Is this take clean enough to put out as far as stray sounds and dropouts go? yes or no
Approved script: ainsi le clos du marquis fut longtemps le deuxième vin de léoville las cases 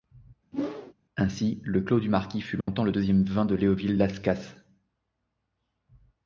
no